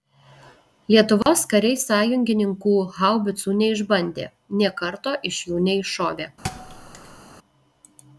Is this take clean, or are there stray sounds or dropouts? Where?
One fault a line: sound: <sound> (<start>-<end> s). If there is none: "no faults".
sound: dropout (1.2-1.3 s)
sound: thud (6.4-7.2 s)